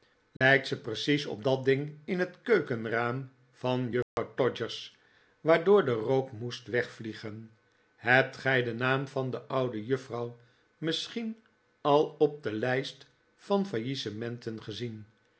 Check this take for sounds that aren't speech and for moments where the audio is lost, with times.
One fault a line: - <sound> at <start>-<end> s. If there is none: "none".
- dropout at 0.4-0.4 s
- dropout at 4.0-4.2 s